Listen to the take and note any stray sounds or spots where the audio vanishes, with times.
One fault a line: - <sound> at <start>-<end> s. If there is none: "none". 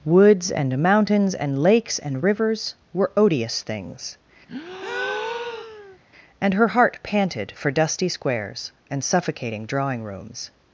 - breath at 4.5-6.0 s